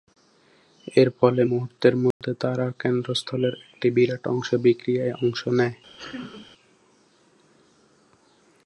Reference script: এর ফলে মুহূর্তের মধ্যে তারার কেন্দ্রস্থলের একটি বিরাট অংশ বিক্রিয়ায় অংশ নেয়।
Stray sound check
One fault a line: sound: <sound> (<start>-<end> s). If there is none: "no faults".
sound: dropout (2.1-2.2 s)
sound: sneeze (6.0-6.5 s)